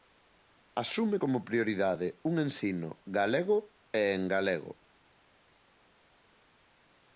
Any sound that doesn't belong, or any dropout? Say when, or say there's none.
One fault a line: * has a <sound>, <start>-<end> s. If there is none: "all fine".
all fine